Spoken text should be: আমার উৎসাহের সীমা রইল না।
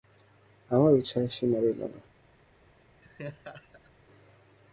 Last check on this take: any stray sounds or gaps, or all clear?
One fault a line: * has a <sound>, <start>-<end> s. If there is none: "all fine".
* has a laugh, 3.0-3.9 s